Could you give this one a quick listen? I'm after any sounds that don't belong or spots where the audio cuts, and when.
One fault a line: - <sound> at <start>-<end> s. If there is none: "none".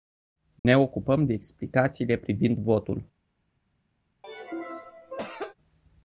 - dropout at 0.6-0.7 s
- cough at 4.2-5.5 s